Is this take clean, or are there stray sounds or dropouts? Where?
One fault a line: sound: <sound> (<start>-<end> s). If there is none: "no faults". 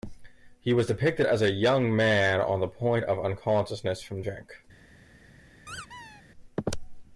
sound: squeak (5.7-6.2 s)